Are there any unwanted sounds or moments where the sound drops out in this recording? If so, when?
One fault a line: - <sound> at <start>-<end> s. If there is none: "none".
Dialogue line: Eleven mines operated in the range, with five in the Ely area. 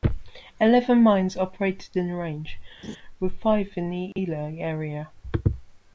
- laugh at 2.8-3.0 s
- dropout at 4.1-4.2 s